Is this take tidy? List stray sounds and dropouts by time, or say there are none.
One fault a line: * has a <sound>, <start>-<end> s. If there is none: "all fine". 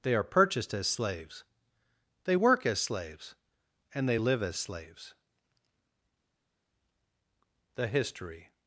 all fine